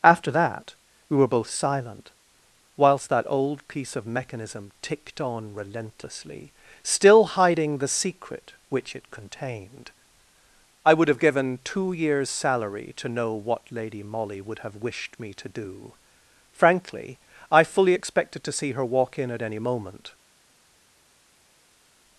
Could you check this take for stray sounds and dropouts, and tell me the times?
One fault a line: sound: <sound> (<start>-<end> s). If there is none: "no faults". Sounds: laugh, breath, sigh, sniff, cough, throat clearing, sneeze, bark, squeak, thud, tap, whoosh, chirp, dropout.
no faults